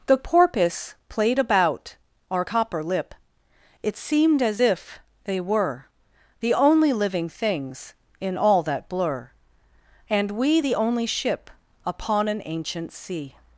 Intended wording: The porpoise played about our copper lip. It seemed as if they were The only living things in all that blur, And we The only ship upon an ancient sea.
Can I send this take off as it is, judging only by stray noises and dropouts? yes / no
yes